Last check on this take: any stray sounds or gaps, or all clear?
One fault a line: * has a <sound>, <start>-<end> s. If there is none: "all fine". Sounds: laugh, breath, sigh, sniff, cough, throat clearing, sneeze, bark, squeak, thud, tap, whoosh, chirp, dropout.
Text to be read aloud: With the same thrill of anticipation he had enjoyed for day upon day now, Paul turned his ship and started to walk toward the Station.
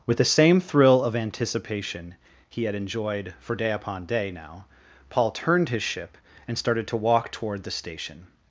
all fine